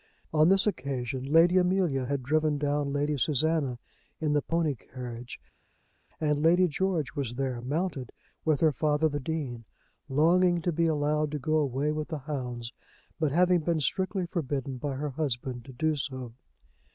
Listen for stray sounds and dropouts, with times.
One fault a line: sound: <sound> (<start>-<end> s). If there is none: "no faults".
no faults